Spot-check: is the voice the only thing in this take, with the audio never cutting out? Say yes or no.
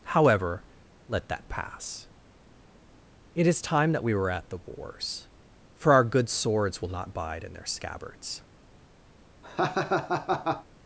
no